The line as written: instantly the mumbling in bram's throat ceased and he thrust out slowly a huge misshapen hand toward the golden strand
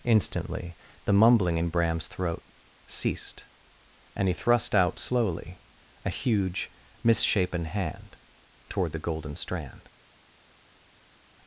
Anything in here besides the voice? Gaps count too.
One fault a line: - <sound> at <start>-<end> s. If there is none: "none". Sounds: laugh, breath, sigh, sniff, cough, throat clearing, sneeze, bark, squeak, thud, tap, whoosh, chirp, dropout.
none